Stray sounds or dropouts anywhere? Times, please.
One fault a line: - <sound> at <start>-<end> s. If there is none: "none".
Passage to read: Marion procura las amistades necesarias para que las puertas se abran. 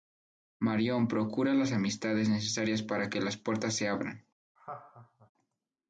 - laugh at 4.6-5.3 s